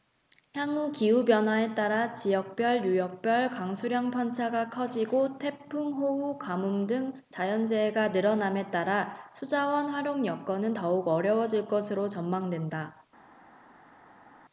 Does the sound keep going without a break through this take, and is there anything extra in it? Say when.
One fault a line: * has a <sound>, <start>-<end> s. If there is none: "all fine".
all fine